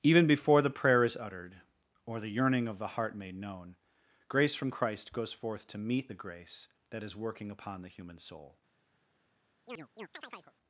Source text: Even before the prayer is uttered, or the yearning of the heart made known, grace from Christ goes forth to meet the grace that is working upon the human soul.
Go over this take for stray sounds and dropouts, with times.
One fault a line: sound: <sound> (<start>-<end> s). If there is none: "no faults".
sound: chirp (9.7-10.5 s)